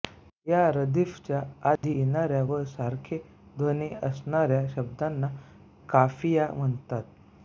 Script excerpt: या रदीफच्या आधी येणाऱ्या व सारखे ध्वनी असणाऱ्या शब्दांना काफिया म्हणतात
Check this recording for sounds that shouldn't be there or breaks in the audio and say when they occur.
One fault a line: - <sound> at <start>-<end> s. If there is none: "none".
- dropout at 1.8-1.8 s